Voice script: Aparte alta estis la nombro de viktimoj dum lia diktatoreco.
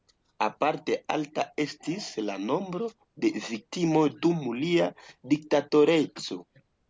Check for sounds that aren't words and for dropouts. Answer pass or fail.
pass